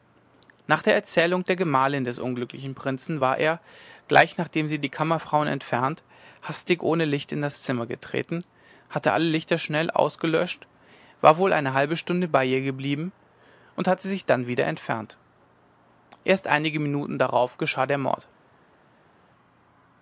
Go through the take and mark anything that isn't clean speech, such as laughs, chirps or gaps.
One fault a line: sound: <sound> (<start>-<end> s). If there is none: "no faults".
no faults